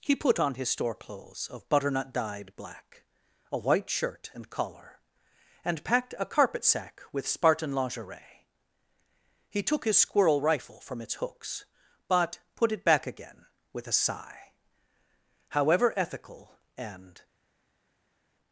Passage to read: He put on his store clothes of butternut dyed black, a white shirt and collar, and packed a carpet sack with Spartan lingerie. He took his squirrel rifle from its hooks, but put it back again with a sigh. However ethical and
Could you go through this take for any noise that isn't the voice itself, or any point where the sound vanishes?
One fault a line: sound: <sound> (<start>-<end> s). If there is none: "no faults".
no faults